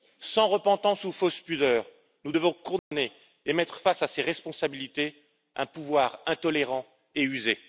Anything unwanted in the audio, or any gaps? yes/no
yes